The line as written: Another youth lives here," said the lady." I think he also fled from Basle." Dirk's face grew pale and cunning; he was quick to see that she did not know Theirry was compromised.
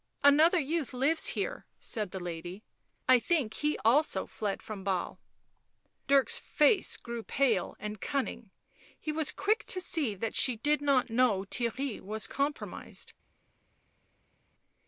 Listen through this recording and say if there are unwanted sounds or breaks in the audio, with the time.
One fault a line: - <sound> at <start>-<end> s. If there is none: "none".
none